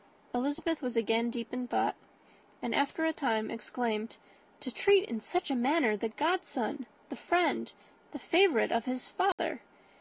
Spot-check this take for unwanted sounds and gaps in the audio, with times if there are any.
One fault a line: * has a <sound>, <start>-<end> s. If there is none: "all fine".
* has a dropout, 9.3-9.4 s